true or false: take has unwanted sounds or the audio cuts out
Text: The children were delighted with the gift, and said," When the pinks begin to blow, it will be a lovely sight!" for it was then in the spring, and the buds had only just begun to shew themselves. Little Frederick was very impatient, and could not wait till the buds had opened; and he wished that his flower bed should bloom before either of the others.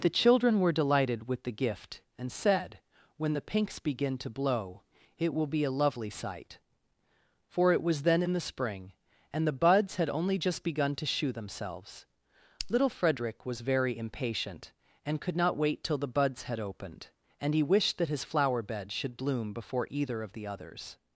false